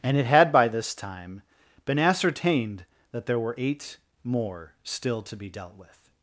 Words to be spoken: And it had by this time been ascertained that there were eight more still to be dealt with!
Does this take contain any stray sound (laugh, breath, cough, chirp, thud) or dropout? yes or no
no